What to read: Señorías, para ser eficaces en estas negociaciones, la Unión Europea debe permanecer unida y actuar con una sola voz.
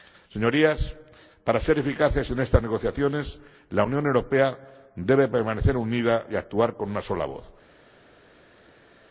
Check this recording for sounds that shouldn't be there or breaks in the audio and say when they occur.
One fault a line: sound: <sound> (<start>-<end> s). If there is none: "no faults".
no faults